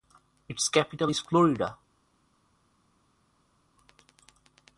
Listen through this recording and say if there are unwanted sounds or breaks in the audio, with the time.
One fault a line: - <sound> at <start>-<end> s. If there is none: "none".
none